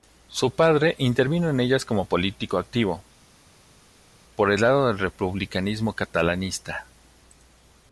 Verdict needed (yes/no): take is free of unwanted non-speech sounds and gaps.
yes